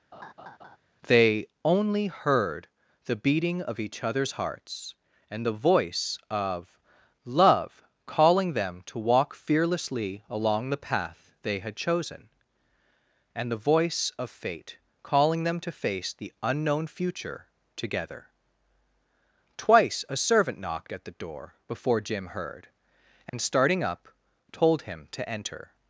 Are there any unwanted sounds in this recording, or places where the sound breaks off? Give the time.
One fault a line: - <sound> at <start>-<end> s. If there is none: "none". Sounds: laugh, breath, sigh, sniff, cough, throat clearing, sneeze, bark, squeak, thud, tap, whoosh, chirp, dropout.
- laugh at 0.1-0.8 s
- dropout at 23.3-23.3 s